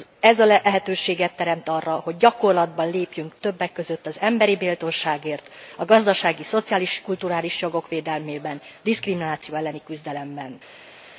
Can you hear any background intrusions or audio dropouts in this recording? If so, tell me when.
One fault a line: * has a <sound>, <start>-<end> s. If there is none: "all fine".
all fine